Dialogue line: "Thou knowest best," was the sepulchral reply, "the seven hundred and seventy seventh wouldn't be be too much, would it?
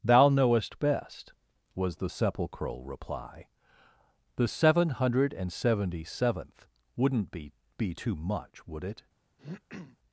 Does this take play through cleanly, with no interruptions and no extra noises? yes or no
no